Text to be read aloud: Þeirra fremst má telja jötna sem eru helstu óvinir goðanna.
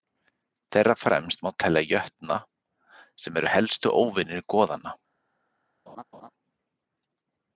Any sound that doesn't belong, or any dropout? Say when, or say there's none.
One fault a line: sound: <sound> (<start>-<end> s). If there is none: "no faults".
sound: laugh (5.9-6.3 s)